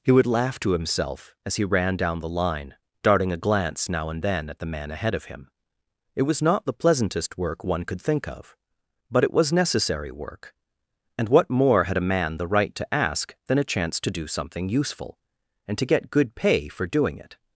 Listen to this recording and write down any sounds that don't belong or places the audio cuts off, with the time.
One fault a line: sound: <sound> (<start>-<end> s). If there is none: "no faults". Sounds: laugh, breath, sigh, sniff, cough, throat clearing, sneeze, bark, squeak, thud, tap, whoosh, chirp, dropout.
no faults